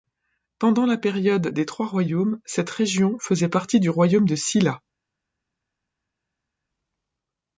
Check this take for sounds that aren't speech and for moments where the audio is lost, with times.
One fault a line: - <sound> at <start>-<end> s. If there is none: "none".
none